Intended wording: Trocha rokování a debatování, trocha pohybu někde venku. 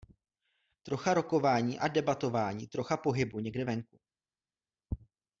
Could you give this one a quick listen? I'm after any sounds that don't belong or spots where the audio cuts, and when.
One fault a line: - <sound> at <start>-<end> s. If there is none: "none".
none